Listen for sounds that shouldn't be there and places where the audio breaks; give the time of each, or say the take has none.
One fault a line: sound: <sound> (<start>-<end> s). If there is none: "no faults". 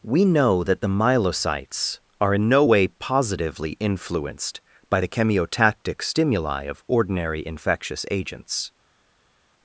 no faults